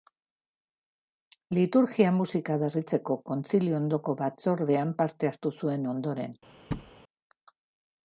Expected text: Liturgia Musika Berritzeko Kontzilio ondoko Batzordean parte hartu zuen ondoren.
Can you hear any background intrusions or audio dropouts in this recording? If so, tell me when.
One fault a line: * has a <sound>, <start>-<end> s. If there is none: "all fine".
* has a thud, 6.7-6.9 s